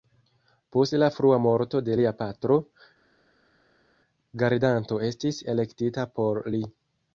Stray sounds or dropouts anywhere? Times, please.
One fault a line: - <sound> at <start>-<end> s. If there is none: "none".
none